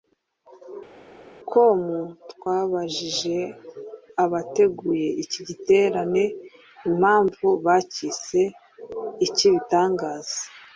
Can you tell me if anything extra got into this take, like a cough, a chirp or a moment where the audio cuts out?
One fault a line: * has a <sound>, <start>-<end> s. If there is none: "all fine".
all fine